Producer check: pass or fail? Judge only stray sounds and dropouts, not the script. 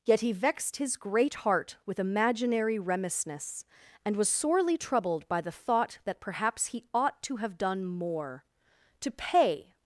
pass